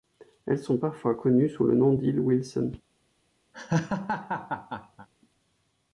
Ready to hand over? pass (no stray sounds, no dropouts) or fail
fail